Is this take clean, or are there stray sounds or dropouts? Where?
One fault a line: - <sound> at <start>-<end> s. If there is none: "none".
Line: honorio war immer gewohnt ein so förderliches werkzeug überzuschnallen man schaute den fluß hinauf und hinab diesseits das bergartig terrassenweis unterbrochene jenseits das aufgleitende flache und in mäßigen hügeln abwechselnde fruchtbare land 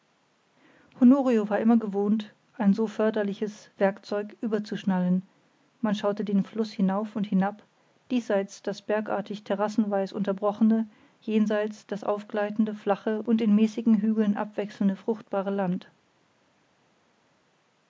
none